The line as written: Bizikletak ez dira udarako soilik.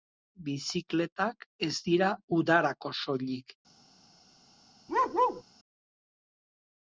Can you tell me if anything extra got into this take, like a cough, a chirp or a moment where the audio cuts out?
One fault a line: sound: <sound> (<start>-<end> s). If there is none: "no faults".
sound: bark (4.9-5.4 s)